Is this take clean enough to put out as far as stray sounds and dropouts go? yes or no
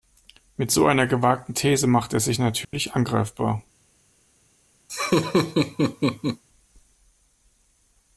no